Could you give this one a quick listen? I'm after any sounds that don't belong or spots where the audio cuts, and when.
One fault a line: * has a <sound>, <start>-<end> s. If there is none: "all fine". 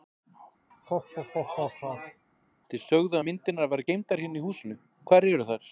* has a laugh, 0.7-2.3 s